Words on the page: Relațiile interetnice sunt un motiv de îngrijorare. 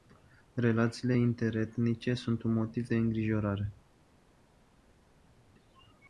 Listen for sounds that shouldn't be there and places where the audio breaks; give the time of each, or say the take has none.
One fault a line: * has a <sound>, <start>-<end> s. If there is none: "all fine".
all fine